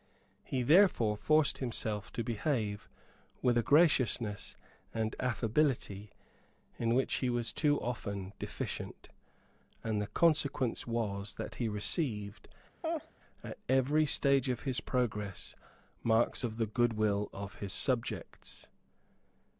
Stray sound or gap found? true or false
true